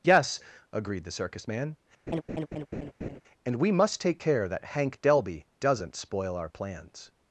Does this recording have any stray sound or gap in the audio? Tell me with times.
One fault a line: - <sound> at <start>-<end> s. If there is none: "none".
- laugh at 2.1-3.2 s